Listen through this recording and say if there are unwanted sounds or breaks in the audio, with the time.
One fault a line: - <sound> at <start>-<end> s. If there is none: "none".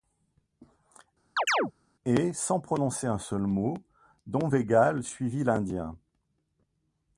- chirp at 1.4-1.7 s